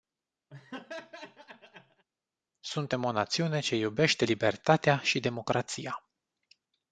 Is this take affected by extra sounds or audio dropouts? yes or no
yes